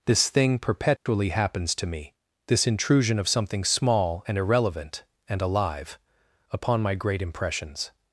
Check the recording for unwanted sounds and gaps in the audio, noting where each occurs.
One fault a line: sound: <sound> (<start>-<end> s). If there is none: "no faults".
sound: dropout (1.0-1.1 s)